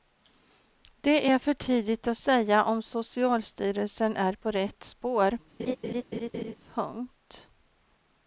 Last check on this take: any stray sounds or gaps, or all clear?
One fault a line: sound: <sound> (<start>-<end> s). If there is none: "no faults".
sound: laugh (5.6-6.5 s)